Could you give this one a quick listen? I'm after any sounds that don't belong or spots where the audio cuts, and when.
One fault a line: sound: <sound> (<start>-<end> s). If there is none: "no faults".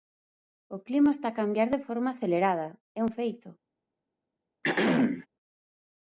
sound: throat clearing (4.6-5.3 s)